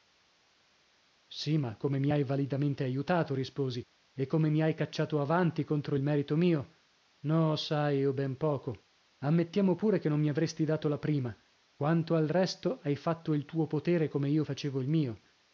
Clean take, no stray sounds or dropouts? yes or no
yes